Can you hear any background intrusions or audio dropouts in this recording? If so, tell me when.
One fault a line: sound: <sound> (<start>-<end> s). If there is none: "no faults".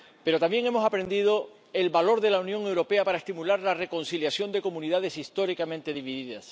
no faults